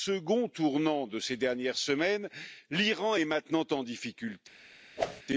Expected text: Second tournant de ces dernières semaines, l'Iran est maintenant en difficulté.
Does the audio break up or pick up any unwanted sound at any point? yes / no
yes